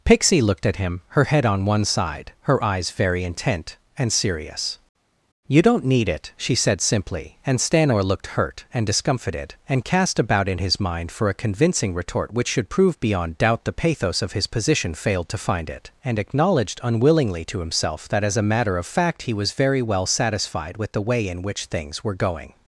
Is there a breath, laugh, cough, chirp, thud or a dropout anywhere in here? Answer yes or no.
no